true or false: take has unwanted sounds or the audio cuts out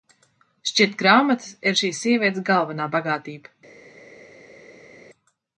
false